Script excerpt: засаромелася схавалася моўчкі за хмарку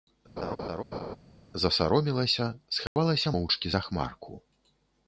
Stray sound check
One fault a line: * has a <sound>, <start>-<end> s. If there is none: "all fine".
* has a laugh, 0.4-1.2 s
* has a dropout, 2.9-3.0 s